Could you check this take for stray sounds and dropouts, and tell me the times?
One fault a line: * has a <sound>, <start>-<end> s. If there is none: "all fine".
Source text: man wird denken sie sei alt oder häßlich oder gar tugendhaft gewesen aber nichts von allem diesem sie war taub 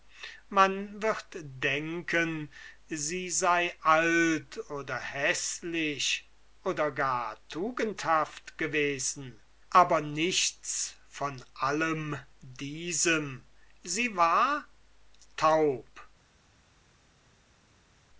all fine